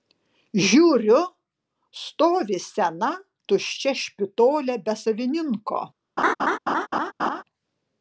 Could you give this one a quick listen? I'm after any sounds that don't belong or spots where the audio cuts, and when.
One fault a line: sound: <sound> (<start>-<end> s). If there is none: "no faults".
sound: laugh (6.2-7.4 s)